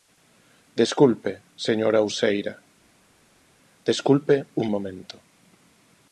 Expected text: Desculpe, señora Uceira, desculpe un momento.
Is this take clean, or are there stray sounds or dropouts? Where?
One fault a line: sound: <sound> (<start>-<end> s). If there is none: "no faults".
no faults